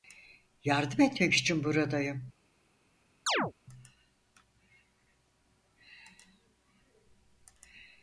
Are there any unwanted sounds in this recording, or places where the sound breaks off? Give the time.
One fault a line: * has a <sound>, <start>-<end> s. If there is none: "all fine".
* has a chirp, 3.3-3.5 s